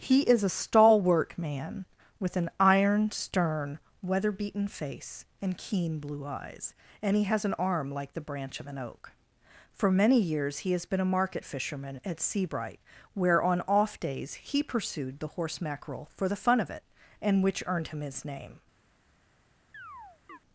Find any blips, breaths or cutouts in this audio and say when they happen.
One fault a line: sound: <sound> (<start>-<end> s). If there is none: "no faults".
sound: chirp (19.7-20.4 s)